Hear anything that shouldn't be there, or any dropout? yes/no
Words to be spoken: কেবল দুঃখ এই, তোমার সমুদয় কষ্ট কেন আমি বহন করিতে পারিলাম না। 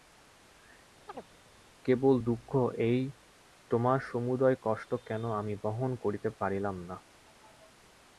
yes